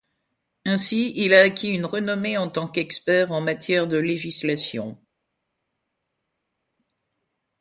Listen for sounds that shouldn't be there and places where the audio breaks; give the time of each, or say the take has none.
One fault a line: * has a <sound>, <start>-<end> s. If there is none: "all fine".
all fine